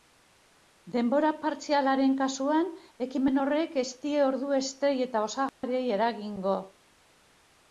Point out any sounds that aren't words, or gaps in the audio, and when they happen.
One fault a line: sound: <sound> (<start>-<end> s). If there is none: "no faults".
sound: dropout (5.5-5.6 s)